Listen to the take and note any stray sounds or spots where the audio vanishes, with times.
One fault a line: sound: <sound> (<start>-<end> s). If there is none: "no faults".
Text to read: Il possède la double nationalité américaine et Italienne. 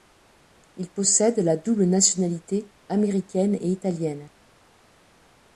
no faults